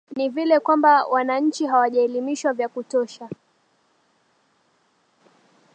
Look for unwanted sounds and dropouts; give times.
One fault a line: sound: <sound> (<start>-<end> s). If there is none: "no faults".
no faults